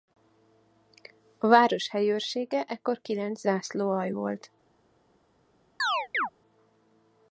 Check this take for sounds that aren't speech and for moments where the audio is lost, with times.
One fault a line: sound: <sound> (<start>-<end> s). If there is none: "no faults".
sound: chirp (5.8-6.3 s)